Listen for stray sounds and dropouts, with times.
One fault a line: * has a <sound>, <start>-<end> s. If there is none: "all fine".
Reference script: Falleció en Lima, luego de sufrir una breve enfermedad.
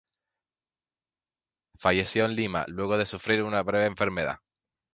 all fine